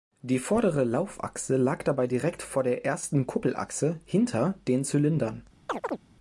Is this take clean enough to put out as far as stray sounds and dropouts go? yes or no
no